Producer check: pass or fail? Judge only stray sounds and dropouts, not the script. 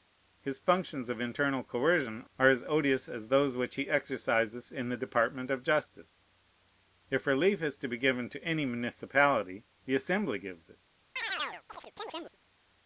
fail